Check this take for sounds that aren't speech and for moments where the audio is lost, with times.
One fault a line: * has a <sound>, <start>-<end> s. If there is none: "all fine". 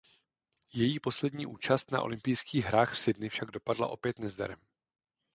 all fine